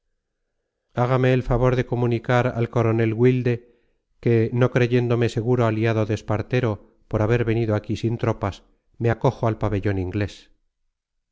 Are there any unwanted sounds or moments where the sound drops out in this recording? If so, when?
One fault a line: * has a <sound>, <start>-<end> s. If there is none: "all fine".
all fine